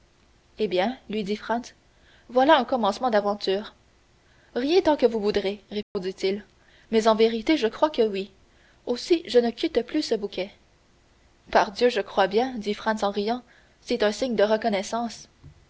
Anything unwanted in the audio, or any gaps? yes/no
yes